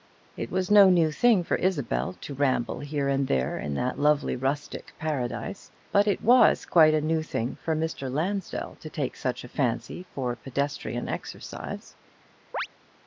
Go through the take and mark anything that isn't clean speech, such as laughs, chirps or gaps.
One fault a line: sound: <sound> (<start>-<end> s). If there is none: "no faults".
sound: chirp (12.5-12.7 s)